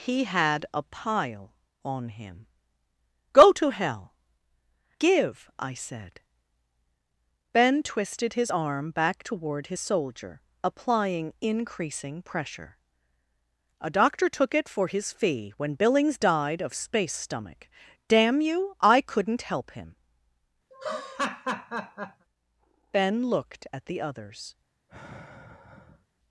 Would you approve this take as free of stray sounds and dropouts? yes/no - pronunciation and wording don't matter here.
no